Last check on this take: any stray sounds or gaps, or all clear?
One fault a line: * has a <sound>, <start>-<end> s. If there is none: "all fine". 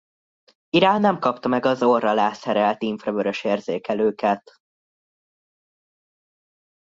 all fine